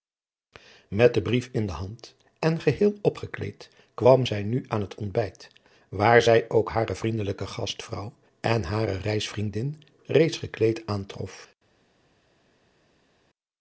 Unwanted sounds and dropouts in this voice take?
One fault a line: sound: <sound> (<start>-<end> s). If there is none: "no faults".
no faults